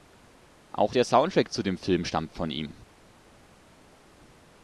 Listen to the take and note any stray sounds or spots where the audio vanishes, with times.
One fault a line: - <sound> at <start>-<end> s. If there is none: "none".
none